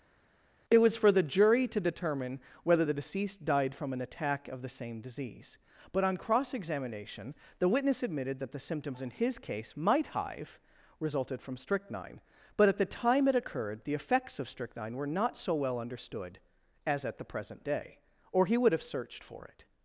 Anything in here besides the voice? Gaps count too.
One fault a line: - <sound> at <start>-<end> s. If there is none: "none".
none